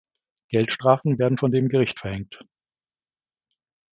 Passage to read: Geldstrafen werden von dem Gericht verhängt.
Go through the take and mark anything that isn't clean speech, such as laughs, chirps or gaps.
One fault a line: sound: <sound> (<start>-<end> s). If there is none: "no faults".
no faults